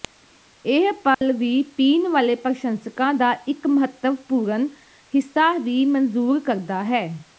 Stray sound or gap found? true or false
true